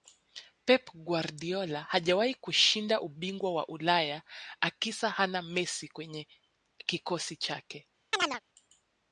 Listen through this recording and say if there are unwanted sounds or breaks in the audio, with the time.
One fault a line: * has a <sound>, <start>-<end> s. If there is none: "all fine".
* has a chirp, 8.1-8.4 s